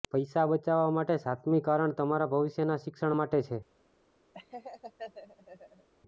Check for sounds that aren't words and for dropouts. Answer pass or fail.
fail